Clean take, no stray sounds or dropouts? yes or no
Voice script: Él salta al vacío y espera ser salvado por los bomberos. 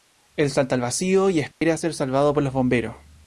no